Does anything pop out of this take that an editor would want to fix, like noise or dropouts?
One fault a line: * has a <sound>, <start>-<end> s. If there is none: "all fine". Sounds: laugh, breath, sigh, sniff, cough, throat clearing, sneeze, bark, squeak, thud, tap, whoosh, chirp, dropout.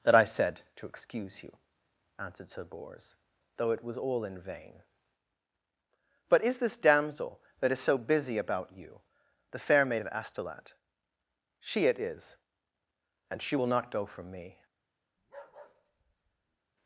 * has a bark, 15.2-16.6 s